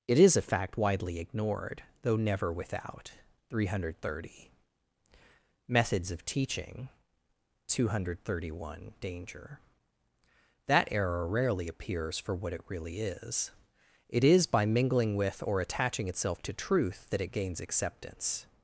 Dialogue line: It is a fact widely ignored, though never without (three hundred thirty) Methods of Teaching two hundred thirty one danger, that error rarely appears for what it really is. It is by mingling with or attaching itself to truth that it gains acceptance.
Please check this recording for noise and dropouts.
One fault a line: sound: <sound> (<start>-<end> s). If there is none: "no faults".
no faults